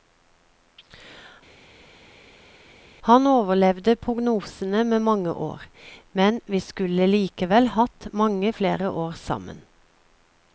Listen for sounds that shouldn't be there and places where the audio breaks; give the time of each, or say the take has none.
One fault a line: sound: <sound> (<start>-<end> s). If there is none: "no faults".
no faults